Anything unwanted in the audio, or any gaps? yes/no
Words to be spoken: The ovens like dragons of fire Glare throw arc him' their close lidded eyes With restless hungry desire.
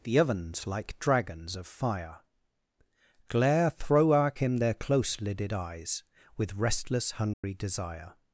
yes